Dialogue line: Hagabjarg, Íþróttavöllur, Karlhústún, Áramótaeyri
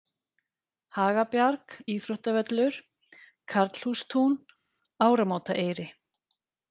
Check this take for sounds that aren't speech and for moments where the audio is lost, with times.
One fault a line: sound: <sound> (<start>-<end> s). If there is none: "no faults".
no faults